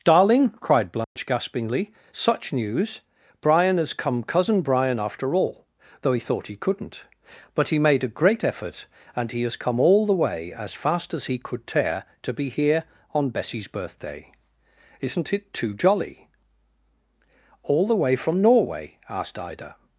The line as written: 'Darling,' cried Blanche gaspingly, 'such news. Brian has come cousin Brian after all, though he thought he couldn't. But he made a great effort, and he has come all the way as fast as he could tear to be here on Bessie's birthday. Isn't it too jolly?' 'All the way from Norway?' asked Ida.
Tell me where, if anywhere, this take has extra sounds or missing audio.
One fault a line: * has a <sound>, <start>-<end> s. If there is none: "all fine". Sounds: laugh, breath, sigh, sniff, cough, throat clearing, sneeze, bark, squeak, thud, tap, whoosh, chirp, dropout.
* has a dropout, 1.0-1.2 s